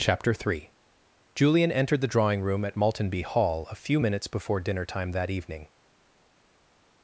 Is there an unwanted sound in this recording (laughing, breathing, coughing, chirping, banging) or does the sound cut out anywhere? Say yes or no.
no